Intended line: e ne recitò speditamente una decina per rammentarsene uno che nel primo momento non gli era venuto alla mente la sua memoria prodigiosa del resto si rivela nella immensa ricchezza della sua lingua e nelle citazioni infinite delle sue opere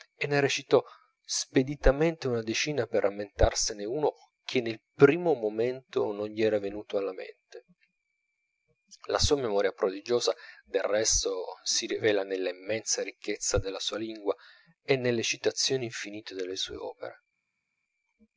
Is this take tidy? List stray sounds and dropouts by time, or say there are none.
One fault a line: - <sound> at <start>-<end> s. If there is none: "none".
none